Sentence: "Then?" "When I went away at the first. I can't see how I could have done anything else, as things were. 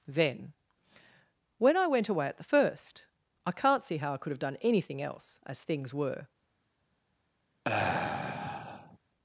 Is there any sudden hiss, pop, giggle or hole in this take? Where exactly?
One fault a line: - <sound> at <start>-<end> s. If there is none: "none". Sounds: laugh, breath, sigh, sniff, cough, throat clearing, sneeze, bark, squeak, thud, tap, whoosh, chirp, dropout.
- sigh at 7.6-9.0 s